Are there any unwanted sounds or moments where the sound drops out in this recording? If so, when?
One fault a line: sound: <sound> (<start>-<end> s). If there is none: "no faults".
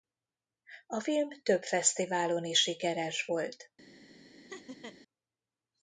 sound: laugh (4.5-5.0 s)